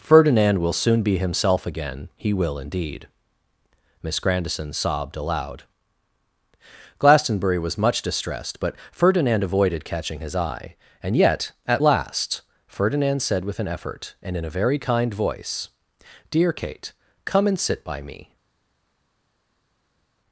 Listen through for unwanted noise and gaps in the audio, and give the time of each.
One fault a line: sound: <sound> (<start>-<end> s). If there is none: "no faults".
no faults